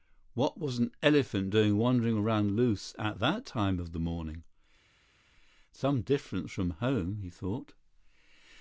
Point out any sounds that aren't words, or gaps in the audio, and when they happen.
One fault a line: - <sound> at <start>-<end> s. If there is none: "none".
none